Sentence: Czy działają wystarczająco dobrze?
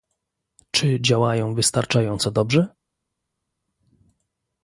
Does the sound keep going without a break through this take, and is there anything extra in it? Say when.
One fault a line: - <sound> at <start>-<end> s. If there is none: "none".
none